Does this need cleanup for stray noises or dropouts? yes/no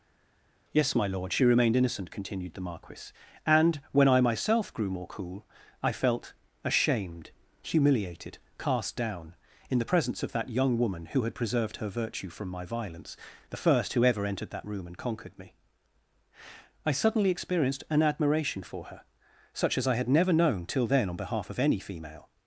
no